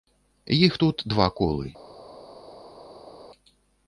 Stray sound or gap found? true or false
false